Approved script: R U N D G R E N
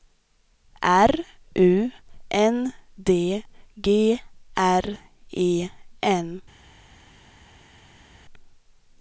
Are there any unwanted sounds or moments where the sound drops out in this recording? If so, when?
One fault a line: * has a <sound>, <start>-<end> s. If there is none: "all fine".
all fine